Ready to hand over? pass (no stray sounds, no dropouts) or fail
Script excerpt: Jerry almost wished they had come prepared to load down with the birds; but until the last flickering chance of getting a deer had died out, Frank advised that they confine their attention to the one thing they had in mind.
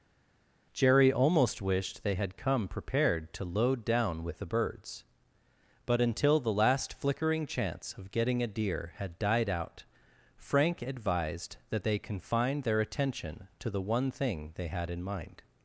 pass